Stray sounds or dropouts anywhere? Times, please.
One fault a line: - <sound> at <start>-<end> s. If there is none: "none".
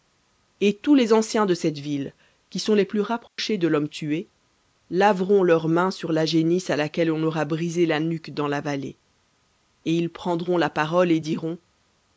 - dropout at 3.3-3.4 s